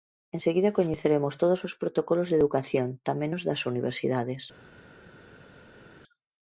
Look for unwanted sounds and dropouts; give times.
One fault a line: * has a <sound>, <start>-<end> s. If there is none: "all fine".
all fine